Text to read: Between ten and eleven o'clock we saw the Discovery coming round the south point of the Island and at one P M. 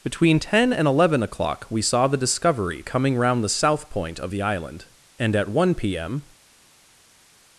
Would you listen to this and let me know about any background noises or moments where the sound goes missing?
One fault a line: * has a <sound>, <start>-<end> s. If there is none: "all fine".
all fine